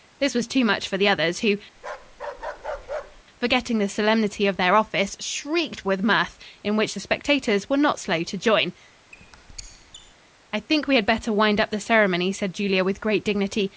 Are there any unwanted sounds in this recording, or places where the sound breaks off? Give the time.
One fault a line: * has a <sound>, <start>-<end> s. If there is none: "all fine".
* has a bark, 1.8-3.2 s
* has a squeak, 9.1-10.1 s